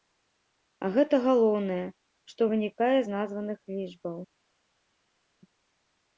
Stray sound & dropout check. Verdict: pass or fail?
pass